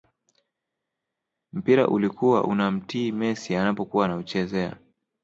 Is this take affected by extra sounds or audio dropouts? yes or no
no